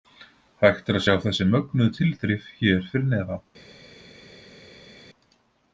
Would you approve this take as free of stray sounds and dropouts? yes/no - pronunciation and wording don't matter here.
yes